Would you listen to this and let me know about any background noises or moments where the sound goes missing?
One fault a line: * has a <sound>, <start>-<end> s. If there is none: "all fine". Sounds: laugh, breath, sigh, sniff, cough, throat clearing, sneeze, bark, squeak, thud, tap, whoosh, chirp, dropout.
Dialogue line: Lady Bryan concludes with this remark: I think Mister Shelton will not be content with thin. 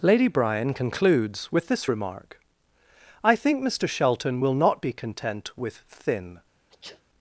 * has a sneeze, 6.7-7.0 s